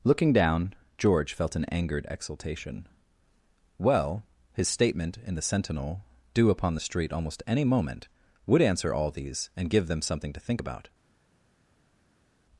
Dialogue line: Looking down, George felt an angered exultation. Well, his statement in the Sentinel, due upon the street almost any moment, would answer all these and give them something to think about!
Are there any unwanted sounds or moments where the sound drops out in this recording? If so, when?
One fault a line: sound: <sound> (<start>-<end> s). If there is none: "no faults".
no faults